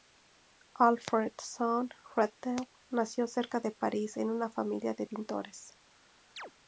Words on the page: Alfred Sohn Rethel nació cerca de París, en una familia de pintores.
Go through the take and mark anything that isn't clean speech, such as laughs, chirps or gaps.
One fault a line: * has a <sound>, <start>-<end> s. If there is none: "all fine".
* has a chirp, 6.4-6.5 s